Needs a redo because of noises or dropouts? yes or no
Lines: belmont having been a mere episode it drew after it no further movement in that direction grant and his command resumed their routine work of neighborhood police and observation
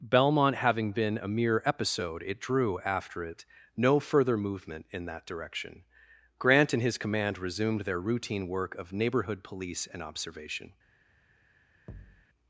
yes